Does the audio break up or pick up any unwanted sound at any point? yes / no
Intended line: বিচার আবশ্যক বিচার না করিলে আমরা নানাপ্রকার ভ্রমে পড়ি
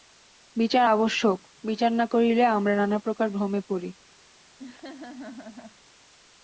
yes